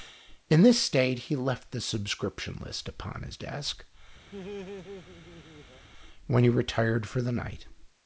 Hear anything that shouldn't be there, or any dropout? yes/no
yes